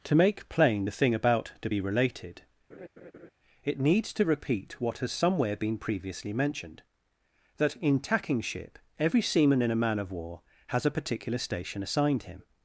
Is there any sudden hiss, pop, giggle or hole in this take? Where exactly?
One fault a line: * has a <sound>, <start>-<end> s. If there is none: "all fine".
* has a laugh, 2.7-3.3 s